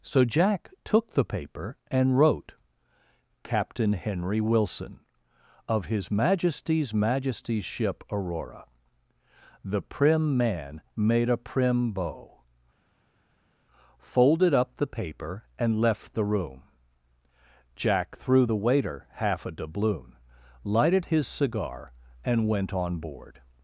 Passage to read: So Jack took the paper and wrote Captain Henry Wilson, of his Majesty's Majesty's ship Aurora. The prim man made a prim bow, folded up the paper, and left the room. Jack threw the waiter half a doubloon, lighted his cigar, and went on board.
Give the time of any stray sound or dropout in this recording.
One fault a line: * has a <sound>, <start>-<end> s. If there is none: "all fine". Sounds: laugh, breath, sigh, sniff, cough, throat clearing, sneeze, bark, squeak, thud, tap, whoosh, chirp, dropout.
all fine